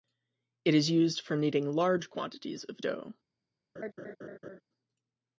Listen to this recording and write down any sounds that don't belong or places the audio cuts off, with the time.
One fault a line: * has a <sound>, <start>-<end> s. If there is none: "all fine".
* has a laugh, 3.8-4.6 s